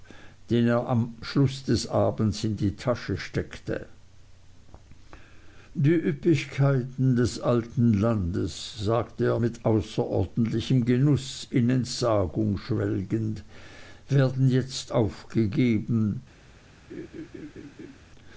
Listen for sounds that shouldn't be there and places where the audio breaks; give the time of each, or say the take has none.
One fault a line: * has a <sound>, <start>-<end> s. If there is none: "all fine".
* has a laugh, 16.9-18.0 s